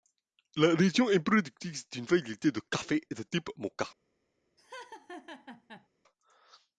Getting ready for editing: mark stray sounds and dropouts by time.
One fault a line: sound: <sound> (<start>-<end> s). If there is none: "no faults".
sound: laugh (4.6-5.9 s)